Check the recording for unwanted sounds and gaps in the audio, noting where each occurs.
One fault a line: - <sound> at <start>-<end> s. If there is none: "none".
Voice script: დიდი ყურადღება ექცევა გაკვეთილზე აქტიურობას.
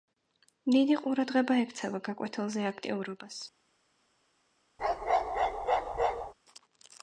- bark at 4.8-6.3 s